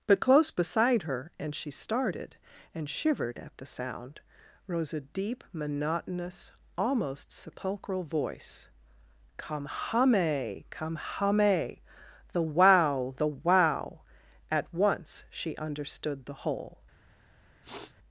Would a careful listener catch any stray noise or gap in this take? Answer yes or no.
yes